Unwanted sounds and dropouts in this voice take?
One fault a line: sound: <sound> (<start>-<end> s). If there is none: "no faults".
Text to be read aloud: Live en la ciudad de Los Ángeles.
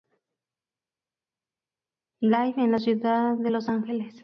no faults